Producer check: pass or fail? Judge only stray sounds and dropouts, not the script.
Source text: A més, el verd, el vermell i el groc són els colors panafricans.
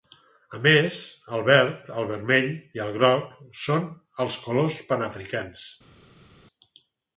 pass